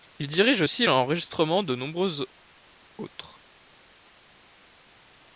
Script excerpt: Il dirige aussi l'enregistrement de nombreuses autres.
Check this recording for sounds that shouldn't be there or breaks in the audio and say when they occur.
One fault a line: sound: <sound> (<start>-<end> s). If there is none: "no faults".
no faults